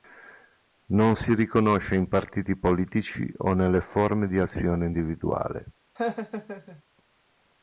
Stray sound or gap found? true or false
true